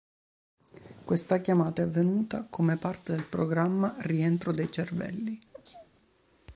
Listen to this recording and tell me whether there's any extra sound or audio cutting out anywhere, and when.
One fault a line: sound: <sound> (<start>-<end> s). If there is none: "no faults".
sound: sneeze (5.5-5.9 s)